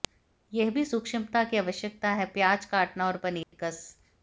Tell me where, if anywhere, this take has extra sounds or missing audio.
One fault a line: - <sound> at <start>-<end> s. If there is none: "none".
- dropout at 3.4-3.5 s